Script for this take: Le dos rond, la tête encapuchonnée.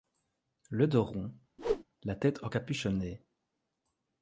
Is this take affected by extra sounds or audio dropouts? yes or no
yes